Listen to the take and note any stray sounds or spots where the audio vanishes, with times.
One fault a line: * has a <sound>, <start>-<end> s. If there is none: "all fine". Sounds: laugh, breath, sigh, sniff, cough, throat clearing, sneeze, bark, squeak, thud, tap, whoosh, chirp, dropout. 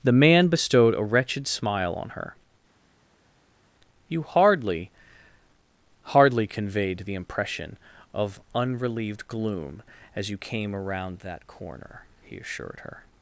all fine